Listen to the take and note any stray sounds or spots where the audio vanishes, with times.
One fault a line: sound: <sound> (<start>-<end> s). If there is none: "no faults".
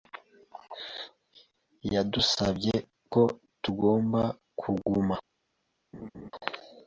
sound: laugh (5.9-6.3 s)